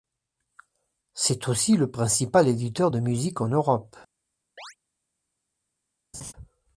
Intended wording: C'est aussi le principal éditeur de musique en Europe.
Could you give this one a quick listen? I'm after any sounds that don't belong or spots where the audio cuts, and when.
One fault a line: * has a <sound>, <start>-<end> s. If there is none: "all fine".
* has a chirp, 4.6-4.8 s
* has a laugh, 6.1-6.3 s